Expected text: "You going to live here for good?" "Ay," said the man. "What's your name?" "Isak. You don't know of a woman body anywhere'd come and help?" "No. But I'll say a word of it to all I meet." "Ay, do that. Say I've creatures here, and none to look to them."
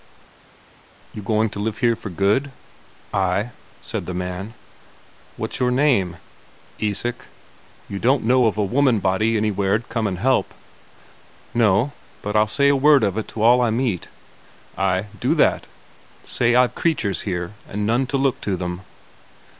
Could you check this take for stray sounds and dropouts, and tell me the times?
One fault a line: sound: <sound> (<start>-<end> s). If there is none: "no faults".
no faults